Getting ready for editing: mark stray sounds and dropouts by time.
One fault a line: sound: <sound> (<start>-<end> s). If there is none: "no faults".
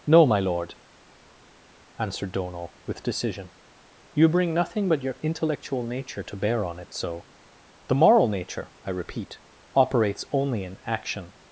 no faults